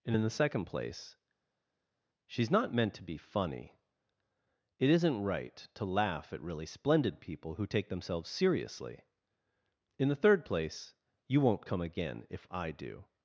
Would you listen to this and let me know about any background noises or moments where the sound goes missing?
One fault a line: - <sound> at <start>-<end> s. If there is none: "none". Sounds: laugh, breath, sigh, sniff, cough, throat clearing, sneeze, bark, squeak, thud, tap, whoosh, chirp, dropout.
none